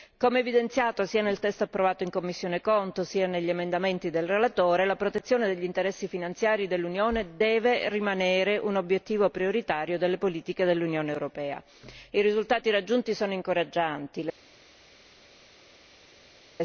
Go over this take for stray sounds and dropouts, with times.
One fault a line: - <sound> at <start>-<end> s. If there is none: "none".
none